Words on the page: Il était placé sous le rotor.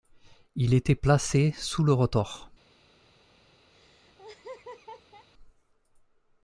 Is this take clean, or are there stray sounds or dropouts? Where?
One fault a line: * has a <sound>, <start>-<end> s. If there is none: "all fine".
* has a laugh, 3.7-5.3 s